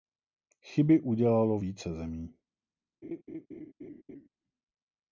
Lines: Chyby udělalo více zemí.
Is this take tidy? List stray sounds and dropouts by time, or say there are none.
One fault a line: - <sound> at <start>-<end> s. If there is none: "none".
- laugh at 3.0-4.3 s